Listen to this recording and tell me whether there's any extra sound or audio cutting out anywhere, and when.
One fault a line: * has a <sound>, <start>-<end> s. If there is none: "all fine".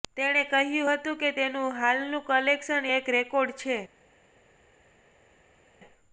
all fine